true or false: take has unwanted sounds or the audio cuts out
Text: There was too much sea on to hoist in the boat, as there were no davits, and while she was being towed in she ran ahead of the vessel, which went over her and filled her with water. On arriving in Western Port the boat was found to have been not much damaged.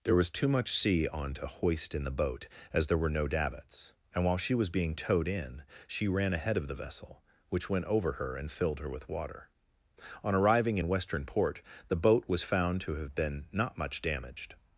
false